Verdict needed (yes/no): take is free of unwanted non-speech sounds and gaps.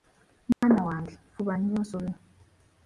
no